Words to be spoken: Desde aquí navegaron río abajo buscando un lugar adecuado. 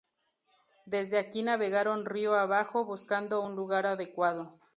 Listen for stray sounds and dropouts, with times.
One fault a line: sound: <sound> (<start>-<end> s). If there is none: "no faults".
no faults